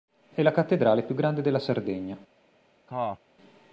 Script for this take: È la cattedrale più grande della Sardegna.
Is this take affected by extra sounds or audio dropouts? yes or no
yes